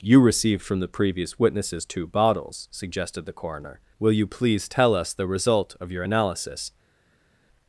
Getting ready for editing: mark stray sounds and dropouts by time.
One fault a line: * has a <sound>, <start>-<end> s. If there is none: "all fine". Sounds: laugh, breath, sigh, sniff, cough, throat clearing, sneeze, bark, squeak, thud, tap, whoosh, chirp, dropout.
all fine